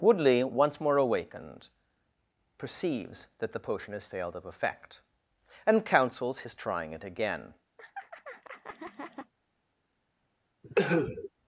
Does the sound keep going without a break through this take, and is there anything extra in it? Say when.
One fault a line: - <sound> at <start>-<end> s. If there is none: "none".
- laugh at 7.8-9.3 s
- cough at 10.6-11.3 s